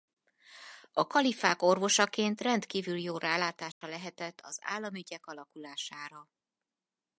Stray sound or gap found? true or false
true